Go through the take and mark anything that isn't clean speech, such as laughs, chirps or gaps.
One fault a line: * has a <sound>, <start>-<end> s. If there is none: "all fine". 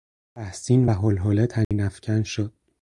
* has a dropout, 1.6-1.7 s